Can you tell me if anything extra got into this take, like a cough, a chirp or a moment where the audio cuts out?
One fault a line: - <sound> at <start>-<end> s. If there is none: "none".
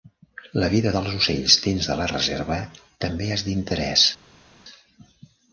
none